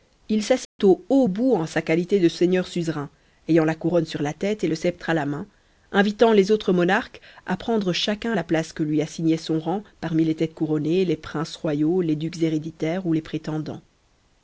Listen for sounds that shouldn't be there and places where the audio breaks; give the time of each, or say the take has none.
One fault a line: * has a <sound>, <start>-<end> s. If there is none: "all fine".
* has a dropout, 0.6-0.8 s